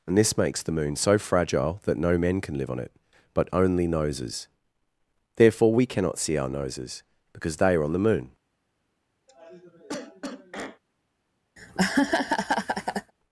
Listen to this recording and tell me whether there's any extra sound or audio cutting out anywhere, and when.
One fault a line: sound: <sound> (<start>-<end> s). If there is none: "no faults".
sound: cough (9.3-10.8 s)
sound: laugh (11.6-13.1 s)